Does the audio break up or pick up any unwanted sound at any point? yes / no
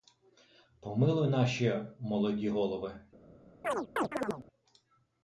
yes